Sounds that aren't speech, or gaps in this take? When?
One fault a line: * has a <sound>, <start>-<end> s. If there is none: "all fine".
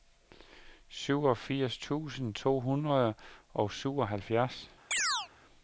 * has a chirp, 4.9-5.3 s